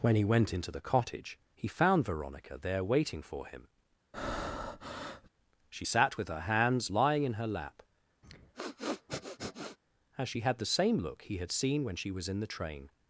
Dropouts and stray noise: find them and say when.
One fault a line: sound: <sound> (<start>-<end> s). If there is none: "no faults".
sound: breath (4.1-5.3 s)
sound: sniff (8.2-9.8 s)